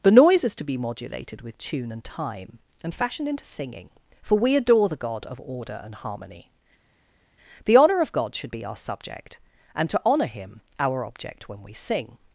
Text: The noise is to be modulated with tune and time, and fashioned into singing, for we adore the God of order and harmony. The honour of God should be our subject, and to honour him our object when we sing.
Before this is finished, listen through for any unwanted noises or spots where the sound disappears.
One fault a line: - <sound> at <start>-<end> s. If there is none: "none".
none